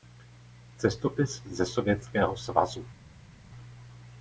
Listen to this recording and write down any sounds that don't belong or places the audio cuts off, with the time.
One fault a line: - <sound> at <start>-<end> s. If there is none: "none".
none